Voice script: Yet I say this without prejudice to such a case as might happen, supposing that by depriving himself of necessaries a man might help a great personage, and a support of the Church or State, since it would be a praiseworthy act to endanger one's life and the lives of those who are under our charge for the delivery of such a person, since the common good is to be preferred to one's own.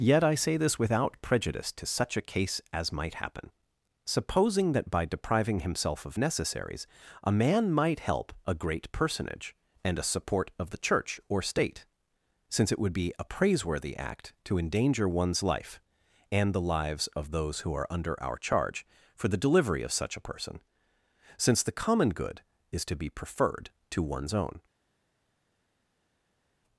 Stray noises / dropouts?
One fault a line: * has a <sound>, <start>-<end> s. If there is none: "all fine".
all fine